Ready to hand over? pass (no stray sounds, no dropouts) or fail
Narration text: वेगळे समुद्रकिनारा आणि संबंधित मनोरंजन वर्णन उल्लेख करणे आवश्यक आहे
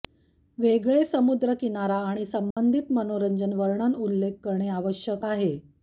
fail